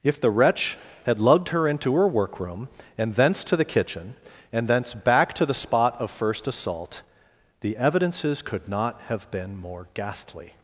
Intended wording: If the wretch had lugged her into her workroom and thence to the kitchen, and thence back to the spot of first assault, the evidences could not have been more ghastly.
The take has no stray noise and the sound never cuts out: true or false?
true